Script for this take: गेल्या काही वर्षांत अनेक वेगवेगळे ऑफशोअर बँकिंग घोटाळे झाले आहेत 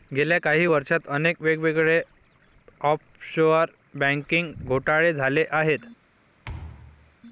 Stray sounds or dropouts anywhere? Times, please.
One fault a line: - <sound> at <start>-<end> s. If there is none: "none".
- thud at 6.4-7.2 s